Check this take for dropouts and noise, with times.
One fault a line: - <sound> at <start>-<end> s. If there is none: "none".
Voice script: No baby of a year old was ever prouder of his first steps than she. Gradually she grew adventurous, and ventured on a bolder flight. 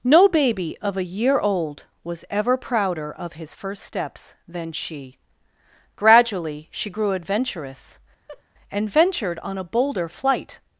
- laugh at 8.3-8.4 s